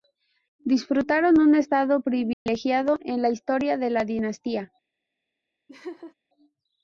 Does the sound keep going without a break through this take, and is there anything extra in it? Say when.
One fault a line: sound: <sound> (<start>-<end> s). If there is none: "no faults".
sound: dropout (2.3-2.5 s)
sound: laugh (5.7-6.1 s)